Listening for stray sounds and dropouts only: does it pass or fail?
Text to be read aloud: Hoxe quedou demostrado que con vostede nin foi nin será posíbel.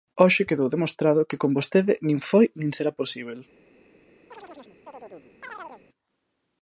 fail